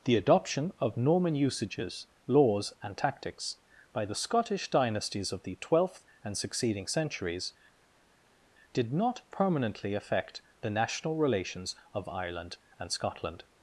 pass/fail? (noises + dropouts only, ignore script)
pass